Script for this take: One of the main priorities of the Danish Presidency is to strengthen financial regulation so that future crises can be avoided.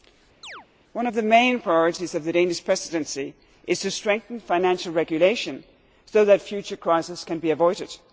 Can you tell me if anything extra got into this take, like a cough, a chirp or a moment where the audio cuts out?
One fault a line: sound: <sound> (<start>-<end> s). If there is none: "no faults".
sound: chirp (0.4-0.7 s)